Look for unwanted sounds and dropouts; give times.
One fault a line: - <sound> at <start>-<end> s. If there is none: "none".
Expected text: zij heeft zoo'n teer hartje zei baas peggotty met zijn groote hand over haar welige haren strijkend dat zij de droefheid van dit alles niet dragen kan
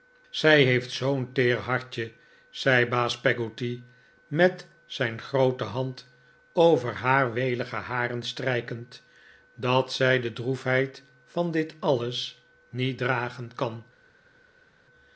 none